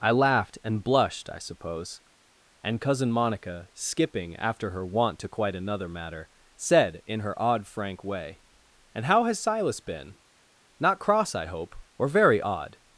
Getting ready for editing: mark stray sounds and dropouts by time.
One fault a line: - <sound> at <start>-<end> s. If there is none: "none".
none